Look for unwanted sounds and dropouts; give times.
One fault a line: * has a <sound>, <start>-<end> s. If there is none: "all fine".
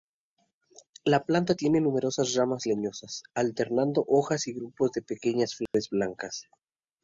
* has a dropout, 5.7-5.7 s